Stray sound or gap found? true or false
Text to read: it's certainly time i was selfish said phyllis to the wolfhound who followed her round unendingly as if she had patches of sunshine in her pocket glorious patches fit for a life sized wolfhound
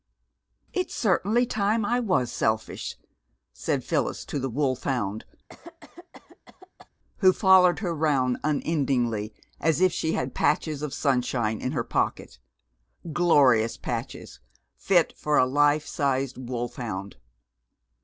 true